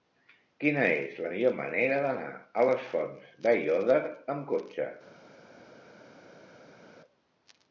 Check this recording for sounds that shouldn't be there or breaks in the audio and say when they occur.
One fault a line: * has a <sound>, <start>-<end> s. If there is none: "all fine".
all fine